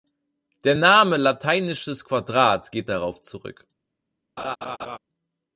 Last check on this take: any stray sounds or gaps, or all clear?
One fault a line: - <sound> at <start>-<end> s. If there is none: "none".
- laugh at 4.4-5.0 s